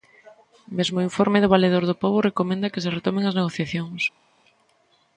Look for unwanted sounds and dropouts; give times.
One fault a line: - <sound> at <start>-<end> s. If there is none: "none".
none